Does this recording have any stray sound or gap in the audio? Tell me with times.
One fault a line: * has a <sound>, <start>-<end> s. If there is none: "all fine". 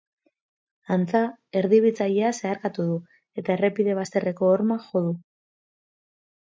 all fine